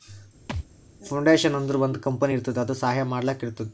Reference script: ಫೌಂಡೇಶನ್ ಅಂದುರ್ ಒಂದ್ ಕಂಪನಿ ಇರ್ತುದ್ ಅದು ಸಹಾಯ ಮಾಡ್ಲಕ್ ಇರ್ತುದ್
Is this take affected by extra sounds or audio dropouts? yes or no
yes